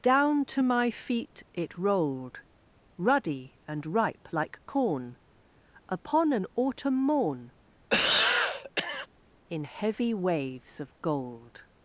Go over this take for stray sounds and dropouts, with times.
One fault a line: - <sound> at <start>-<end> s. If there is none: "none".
- cough at 7.9-9.1 s